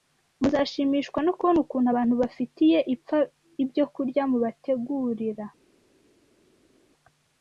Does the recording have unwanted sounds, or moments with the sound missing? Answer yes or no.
no